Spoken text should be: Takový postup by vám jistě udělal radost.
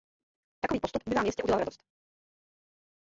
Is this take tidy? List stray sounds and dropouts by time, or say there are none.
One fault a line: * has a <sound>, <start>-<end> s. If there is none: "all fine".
all fine